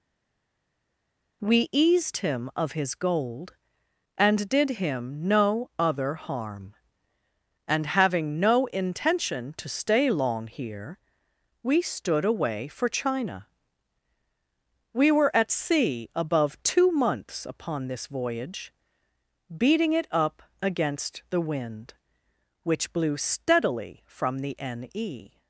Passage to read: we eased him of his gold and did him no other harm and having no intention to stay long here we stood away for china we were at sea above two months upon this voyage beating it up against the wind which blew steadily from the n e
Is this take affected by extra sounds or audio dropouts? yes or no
no